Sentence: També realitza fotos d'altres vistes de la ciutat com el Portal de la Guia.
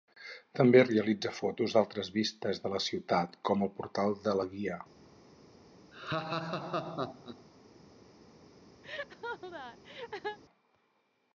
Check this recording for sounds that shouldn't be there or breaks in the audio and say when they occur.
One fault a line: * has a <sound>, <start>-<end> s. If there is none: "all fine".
* has a laugh, 5.9-7.4 s
* has a laugh, 8.8-10.4 s